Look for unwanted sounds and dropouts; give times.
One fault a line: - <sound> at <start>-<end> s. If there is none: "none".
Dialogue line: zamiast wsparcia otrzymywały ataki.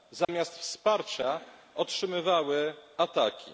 - dropout at 0.2-0.3 s